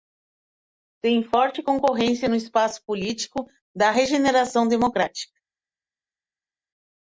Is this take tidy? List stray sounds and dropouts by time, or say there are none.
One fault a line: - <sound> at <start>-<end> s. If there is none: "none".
none